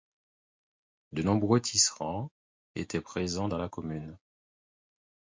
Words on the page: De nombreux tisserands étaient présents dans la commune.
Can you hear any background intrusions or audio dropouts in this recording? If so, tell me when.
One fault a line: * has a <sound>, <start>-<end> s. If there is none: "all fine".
all fine